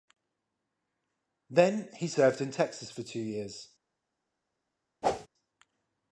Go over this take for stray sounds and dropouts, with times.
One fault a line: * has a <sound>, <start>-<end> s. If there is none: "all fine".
* has a whoosh, 5.0-5.3 s